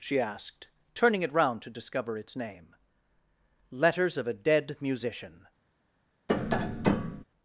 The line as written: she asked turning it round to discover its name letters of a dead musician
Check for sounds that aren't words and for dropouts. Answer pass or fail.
fail